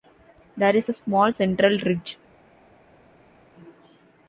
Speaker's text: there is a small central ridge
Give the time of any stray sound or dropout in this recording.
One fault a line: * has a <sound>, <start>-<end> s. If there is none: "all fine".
all fine